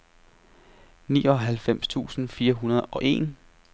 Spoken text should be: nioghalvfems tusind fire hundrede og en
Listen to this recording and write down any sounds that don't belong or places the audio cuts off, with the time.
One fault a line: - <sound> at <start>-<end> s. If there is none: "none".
none